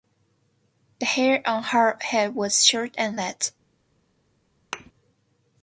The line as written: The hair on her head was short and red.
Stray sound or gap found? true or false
true